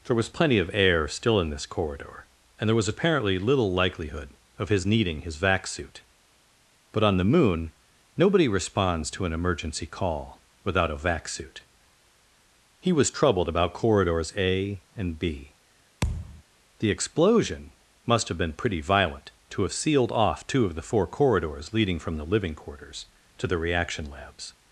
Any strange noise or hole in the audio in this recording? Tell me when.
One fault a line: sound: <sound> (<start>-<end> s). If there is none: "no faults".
sound: thud (16.0-16.4 s)